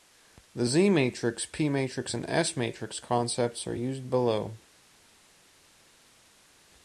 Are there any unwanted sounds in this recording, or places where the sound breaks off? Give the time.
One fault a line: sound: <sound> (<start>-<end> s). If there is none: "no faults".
no faults